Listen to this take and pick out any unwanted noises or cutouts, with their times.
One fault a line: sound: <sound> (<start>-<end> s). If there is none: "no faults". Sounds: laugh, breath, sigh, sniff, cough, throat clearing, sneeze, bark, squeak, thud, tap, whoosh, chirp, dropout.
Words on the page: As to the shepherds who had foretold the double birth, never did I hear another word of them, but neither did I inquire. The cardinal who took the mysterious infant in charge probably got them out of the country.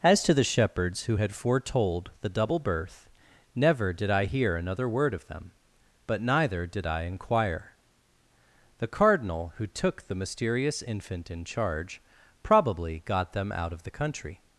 no faults